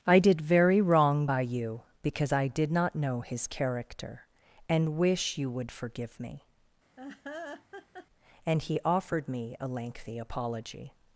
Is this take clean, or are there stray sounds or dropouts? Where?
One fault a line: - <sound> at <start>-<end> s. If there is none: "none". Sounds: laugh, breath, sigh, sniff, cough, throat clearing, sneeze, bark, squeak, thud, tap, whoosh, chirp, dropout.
- laugh at 7.0-8.1 s